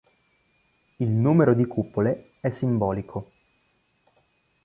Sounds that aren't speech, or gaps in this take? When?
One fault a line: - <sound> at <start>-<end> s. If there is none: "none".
none